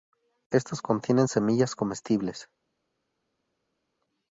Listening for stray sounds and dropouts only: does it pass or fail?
pass